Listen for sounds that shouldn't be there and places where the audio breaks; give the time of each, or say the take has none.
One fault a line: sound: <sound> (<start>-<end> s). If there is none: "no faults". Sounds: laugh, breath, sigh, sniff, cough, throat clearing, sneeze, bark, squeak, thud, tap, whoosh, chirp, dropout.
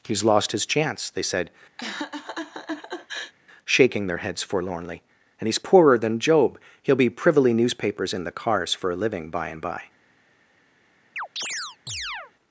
sound: laugh (1.8-3.3 s)
sound: chirp (11.2-12.3 s)